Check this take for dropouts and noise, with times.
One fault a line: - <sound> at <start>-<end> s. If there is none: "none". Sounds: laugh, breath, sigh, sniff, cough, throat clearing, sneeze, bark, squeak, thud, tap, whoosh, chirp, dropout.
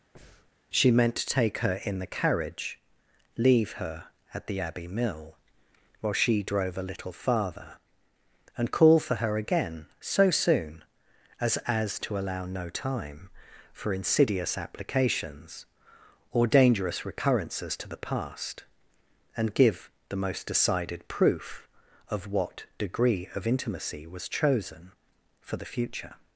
- breath at 0.1-0.5 s